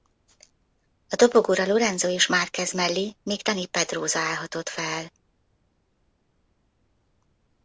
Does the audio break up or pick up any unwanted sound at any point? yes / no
no